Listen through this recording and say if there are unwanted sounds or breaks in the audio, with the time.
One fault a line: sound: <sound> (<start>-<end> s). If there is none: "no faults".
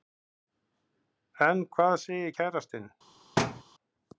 sound: thud (3.4-3.6 s)